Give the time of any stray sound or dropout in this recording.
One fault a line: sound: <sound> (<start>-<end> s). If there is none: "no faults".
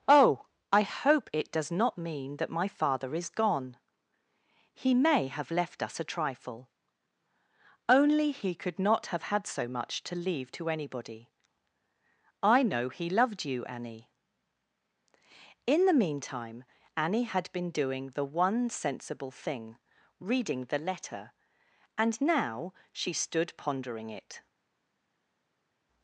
no faults